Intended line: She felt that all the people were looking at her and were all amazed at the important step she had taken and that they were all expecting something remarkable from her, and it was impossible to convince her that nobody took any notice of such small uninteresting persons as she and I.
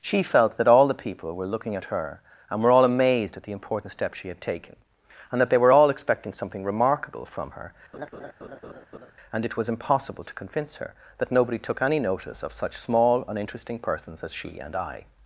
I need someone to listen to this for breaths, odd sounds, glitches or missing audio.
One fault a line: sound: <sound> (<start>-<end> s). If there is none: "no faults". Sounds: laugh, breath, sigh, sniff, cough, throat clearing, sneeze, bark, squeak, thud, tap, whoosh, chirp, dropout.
sound: laugh (7.9-9.1 s)